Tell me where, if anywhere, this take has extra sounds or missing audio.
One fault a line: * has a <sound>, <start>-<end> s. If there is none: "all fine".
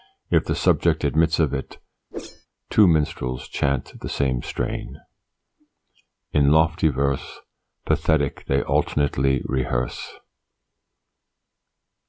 * has a whoosh, 2.1-2.5 s